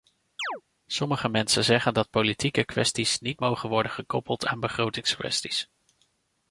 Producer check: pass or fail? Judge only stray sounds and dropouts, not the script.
fail